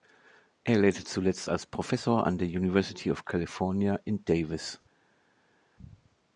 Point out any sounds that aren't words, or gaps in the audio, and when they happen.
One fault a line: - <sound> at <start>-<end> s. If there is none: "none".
none